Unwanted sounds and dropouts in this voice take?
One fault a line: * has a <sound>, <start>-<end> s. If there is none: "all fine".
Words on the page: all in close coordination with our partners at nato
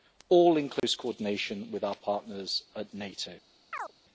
* has a dropout, 0.8-0.8 s
* has a chirp, 3.7-3.9 s